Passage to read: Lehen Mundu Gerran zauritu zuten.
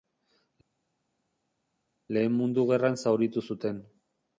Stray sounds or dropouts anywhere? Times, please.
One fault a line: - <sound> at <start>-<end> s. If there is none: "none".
none